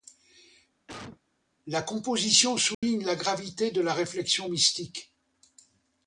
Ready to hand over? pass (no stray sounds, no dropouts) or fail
fail